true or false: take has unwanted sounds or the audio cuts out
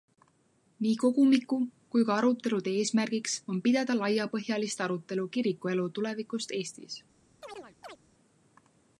true